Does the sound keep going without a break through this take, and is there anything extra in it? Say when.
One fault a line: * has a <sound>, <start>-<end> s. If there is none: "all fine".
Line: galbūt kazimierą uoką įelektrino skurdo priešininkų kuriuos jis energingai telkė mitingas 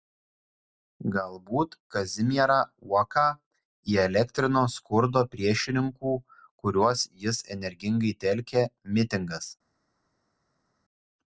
all fine